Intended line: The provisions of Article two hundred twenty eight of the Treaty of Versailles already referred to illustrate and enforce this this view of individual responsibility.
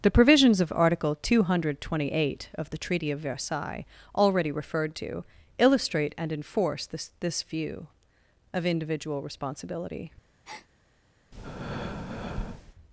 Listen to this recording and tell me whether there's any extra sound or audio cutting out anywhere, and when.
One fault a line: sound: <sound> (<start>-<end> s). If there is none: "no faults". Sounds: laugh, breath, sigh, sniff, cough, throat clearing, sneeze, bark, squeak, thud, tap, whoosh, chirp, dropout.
sound: breath (10.4-10.7 s)
sound: breath (11.3-12.7 s)